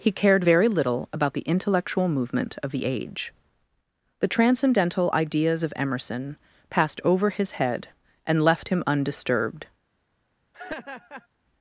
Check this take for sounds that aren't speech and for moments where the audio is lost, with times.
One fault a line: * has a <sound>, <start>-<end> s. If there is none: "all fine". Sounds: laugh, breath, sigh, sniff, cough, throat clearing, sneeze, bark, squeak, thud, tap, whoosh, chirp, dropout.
* has a laugh, 10.5-11.3 s